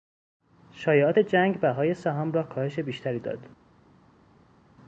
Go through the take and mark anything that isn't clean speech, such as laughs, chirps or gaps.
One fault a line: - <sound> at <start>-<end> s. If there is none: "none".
none